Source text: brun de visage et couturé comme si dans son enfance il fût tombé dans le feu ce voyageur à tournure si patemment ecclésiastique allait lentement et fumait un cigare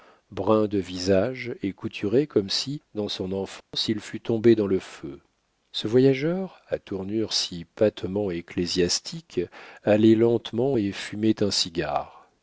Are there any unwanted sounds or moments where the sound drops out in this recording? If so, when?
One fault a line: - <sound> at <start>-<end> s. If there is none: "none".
- dropout at 3.6-3.7 s